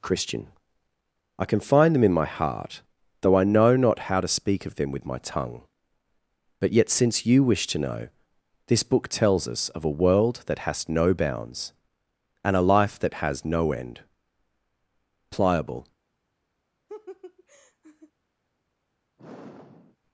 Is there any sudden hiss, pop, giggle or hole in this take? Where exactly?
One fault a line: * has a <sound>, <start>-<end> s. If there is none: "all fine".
* has a laugh, 16.9-18.1 s
* has a sigh, 19.2-20.0 s